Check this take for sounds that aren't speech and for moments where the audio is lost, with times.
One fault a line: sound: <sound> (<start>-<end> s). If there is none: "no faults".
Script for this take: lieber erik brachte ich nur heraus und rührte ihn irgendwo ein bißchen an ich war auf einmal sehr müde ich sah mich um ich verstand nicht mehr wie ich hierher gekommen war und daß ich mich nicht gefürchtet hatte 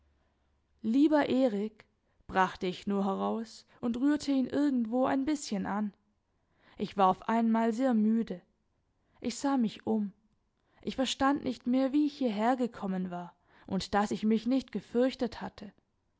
no faults